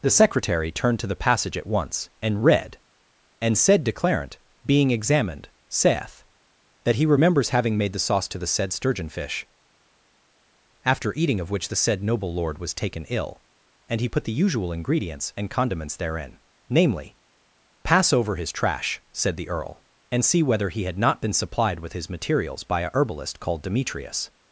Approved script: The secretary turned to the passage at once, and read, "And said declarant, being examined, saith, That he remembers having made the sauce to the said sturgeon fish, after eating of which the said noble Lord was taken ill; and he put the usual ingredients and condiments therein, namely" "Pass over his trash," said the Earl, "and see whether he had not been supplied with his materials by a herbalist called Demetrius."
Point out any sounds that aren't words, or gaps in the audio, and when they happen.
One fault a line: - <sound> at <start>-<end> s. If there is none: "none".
none